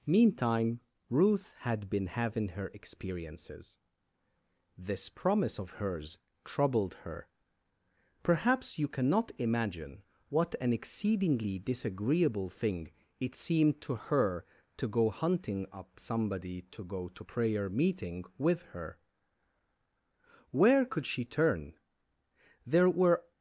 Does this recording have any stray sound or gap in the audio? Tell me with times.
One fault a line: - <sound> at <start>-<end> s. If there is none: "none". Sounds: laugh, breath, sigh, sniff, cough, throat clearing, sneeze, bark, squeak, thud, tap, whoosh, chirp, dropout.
none